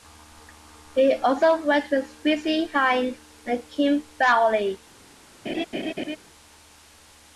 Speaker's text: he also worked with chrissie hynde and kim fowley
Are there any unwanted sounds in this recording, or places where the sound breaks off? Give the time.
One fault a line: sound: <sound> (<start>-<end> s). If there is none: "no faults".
sound: laugh (5.5-6.2 s)